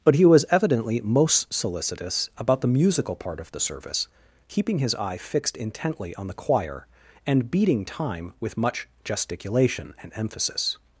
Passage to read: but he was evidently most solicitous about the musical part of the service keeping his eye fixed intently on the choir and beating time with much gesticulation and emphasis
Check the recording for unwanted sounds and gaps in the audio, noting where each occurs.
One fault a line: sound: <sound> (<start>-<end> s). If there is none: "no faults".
no faults